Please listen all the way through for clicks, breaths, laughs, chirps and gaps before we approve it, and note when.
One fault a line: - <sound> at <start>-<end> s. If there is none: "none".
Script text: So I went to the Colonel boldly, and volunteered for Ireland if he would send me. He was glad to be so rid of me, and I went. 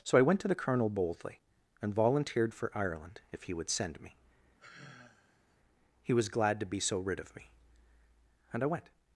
- sigh at 4.6-5.6 s